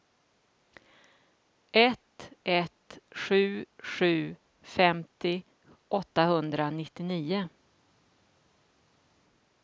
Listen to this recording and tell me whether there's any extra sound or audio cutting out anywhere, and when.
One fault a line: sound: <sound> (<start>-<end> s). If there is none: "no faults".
no faults